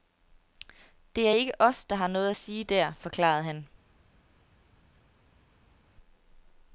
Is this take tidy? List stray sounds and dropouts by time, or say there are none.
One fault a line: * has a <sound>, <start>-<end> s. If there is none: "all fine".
all fine